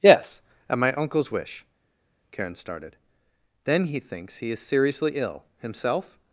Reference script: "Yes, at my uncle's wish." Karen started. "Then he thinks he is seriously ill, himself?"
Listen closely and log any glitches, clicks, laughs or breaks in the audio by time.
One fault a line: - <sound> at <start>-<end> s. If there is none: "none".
none